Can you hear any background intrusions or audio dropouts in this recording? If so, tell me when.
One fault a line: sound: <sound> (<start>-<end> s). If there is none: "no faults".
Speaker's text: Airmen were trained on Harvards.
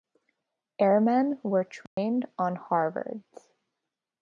sound: dropout (1.9-2.0 s)